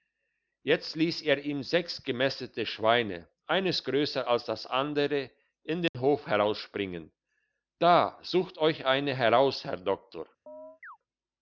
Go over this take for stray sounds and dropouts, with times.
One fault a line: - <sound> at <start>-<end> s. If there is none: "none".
- dropout at 5.9-5.9 s
- chirp at 10.5-11.0 s